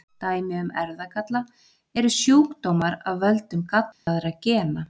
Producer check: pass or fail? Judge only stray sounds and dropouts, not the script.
fail